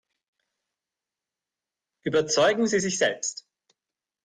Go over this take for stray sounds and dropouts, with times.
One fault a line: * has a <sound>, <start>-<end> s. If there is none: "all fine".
all fine